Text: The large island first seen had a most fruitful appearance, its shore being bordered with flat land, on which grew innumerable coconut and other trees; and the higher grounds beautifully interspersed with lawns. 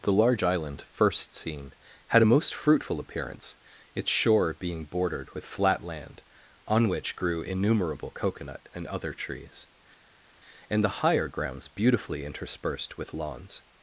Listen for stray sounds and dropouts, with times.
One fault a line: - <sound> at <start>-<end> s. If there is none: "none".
none